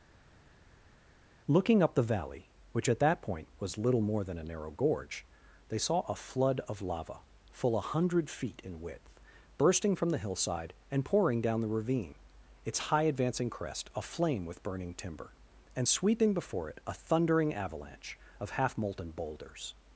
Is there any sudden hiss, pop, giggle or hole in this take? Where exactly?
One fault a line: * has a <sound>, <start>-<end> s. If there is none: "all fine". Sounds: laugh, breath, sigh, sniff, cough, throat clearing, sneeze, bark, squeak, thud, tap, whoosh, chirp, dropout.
all fine